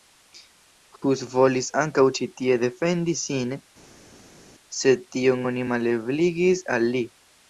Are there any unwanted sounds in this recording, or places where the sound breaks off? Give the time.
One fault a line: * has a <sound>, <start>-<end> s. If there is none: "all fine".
all fine